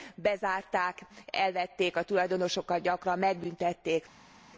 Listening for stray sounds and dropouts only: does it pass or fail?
pass